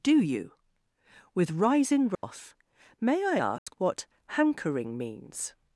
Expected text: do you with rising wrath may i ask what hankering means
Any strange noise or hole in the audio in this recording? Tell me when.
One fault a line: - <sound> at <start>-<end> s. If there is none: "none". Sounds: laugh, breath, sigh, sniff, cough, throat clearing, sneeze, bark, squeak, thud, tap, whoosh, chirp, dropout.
- dropout at 2.2-2.2 s
- dropout at 3.6-3.7 s